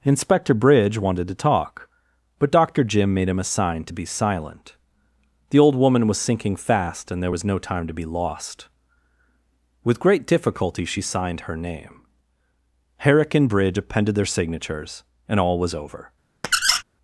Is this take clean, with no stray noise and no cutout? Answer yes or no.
no